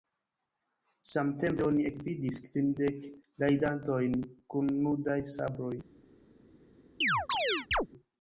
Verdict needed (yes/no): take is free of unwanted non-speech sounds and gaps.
no